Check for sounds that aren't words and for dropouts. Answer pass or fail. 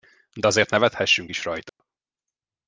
fail